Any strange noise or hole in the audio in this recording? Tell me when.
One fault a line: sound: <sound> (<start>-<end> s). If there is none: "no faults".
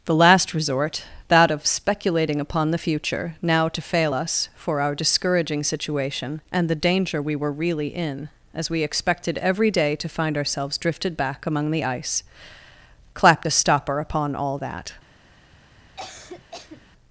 sound: cough (16.0-16.8 s)